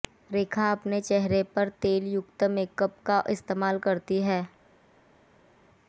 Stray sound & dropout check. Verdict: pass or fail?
pass